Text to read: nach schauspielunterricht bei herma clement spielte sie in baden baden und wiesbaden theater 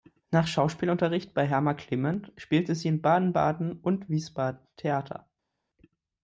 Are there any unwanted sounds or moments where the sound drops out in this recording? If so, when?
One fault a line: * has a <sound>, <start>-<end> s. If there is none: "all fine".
all fine